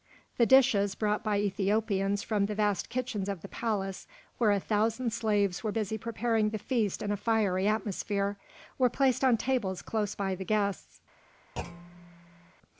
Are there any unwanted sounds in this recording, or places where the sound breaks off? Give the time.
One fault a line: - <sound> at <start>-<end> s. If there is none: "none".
- thud at 11.6-12.5 s